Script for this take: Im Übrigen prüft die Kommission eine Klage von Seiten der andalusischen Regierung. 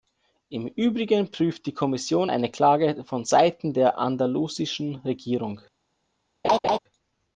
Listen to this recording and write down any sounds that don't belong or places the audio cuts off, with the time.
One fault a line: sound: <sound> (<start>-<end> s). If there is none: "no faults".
sound: laugh (6.4-6.8 s)